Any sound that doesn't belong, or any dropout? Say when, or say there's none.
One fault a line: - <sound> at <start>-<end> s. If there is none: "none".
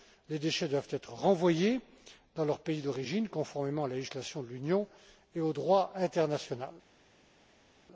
none